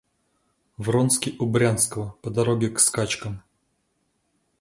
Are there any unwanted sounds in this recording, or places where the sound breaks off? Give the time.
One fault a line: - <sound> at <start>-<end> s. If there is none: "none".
none